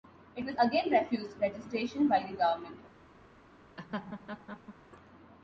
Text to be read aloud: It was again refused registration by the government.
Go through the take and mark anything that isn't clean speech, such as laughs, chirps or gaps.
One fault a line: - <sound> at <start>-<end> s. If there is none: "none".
- laugh at 3.8-4.7 s